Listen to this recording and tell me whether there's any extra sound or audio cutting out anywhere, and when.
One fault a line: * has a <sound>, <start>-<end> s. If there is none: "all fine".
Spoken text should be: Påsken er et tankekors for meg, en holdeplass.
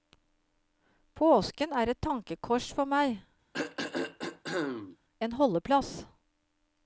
* has a throat clearing, 3.5-5.0 s